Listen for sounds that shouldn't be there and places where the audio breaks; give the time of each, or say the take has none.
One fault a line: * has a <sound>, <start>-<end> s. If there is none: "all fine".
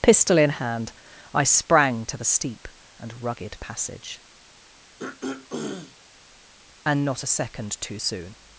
* has a throat clearing, 5.0-6.0 s